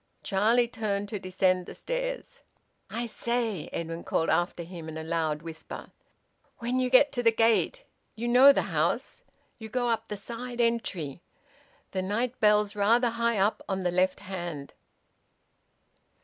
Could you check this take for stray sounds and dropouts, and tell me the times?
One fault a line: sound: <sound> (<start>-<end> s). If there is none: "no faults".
no faults